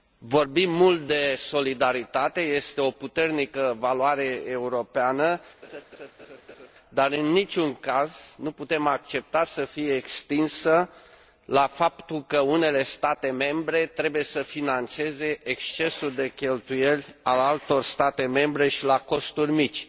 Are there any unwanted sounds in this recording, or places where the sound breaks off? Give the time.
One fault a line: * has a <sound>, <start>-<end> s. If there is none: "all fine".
* has a laugh, 5.6-6.7 s